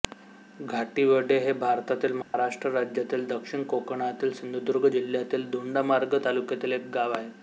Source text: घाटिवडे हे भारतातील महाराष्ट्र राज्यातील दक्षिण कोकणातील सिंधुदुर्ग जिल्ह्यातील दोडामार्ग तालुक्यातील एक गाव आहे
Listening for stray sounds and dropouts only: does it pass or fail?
fail